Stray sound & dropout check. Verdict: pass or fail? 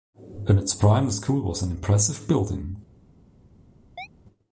fail